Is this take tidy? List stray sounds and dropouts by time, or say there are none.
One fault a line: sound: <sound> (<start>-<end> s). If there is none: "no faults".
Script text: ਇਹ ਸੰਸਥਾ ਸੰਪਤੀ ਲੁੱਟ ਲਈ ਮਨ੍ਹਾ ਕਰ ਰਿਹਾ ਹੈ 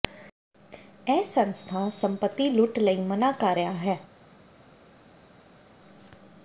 no faults